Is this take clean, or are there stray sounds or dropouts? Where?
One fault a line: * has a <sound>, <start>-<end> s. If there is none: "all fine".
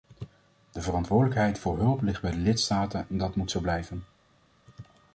all fine